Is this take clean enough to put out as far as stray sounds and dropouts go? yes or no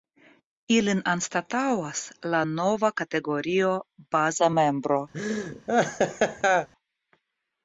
no